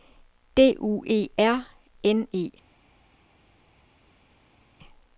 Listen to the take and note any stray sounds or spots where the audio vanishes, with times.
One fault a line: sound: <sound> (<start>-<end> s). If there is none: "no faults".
no faults